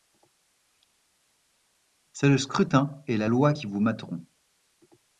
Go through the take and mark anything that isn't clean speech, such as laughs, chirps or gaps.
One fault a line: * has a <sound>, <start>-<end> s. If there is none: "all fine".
all fine